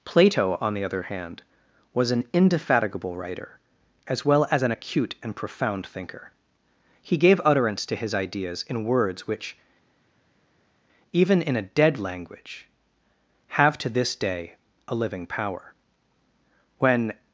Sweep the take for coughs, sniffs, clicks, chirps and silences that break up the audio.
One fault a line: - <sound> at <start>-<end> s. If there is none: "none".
none